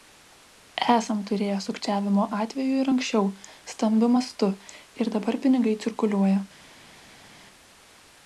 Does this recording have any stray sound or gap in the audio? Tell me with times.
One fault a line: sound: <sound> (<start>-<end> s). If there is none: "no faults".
no faults